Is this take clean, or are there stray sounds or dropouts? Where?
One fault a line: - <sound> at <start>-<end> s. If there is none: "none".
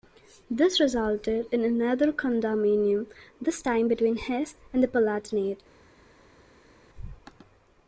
none